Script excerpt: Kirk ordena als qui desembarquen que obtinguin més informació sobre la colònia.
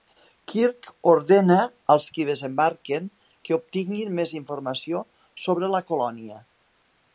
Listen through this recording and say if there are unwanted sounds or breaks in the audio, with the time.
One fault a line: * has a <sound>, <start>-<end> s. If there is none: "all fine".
all fine